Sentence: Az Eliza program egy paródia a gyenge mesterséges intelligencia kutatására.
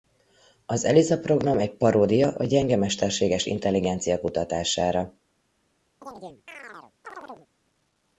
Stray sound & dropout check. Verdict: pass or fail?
fail